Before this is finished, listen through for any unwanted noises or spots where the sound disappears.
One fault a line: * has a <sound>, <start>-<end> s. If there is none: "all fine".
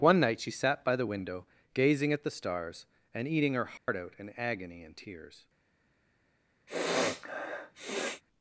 * has a dropout, 3.8-3.9 s
* has a sniff, 6.7-8.2 s